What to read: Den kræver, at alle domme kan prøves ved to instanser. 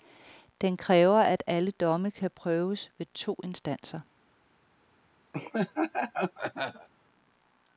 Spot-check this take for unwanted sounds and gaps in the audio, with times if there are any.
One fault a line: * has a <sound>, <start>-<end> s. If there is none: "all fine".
* has a laugh, 5.3-6.9 s